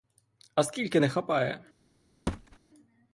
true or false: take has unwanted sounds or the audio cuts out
true